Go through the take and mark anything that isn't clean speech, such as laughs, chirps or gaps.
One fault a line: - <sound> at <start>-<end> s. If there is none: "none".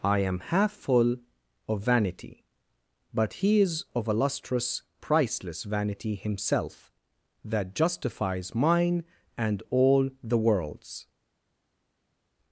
none